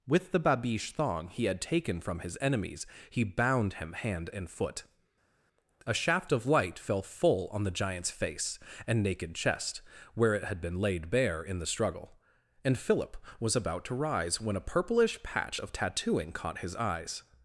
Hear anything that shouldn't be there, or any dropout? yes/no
no